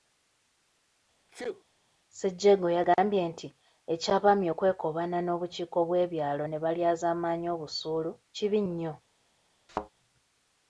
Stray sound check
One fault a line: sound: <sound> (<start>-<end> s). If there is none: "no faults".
sound: sneeze (1.3-1.6 s)
sound: thud (9.7-9.9 s)